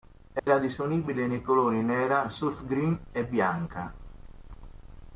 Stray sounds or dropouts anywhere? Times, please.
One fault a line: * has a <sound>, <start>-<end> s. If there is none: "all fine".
* has a dropout, 0.4-0.5 s